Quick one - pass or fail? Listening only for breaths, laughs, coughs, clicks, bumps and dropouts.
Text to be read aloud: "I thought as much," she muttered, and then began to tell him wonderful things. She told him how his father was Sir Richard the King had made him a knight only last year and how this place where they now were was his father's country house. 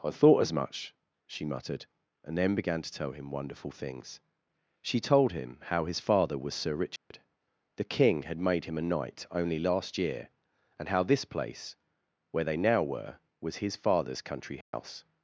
fail